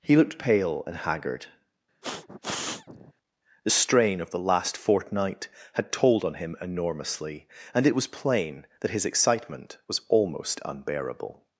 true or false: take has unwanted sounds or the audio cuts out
true